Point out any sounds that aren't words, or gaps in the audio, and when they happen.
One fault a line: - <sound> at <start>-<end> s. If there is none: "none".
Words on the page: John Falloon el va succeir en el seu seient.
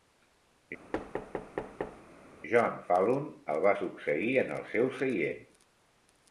- thud at 0.9-2.0 s